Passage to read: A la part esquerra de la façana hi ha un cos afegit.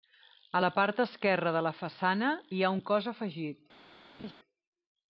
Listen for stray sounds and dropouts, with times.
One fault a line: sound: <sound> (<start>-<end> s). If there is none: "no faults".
sound: laugh (4.2-4.3 s)